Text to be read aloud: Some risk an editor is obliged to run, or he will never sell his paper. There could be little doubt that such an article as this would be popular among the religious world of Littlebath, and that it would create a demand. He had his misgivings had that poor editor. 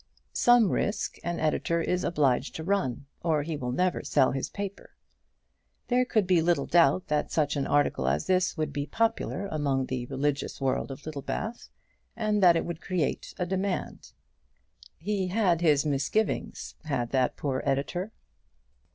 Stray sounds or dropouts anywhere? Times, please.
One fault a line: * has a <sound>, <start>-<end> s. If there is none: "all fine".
all fine